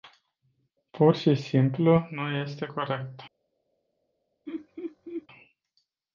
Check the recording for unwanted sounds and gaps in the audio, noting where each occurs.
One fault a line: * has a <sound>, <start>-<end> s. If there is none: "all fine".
* has a laugh, 4.5-5.3 s